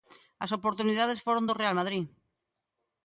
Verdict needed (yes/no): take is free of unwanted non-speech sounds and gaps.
yes